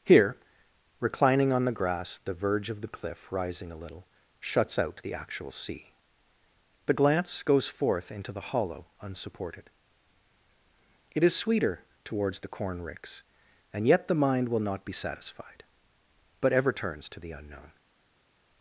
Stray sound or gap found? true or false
false